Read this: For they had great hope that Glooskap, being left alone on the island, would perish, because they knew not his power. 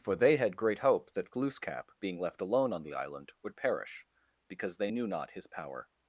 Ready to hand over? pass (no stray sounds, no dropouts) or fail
pass